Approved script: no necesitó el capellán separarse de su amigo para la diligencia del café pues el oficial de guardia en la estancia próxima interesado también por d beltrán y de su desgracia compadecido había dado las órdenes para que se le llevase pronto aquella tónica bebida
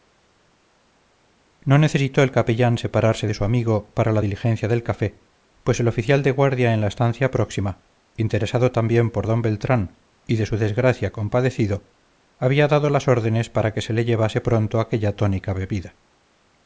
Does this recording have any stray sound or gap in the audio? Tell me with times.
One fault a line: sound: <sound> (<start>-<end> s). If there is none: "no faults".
no faults